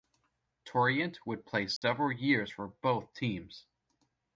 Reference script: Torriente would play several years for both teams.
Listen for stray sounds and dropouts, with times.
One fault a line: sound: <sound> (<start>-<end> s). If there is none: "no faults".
sound: dropout (1.8-1.8 s)